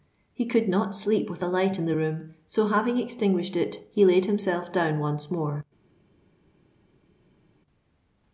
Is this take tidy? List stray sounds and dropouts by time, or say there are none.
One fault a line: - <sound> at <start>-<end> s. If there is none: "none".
none